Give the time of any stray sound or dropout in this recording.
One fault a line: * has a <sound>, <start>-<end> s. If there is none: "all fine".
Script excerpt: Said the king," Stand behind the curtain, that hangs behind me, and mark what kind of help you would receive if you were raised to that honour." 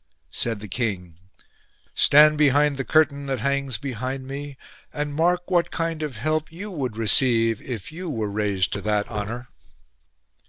all fine